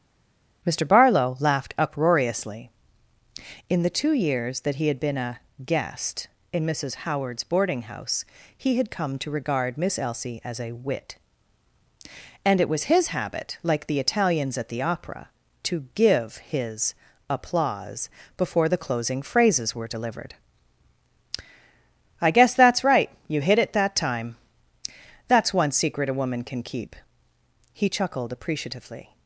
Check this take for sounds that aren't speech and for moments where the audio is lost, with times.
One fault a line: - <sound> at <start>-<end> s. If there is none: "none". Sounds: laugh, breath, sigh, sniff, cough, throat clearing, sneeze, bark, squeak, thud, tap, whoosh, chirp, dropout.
none